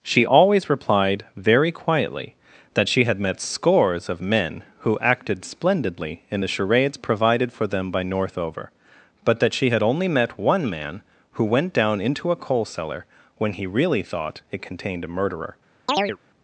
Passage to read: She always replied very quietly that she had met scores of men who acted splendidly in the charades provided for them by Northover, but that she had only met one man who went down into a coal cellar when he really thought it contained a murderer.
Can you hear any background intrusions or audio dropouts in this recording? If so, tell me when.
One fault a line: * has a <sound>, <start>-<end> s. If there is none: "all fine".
* has a chirp, 15.9-16.2 s